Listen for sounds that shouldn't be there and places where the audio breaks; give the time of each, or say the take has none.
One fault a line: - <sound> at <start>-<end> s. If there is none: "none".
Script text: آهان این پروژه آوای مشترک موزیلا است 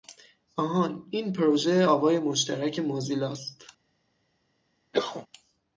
- cough at 4.9-5.3 s